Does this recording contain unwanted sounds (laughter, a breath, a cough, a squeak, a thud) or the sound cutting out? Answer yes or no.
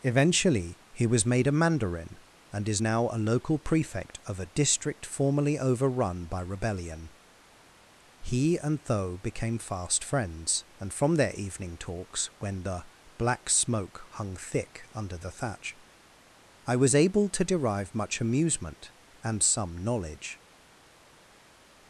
no